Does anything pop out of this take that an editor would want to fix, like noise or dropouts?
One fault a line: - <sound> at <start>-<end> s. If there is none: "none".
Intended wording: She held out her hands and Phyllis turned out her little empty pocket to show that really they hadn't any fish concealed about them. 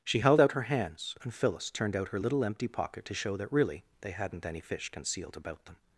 none